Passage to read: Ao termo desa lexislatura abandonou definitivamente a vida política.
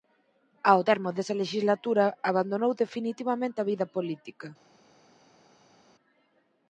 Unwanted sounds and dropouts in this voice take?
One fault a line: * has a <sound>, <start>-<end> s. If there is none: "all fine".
all fine